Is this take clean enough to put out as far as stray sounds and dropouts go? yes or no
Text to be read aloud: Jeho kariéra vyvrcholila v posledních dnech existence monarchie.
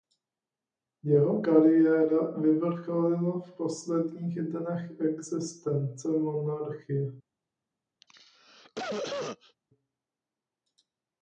no